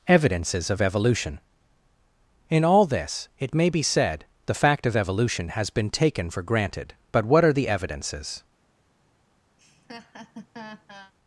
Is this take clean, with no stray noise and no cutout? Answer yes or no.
no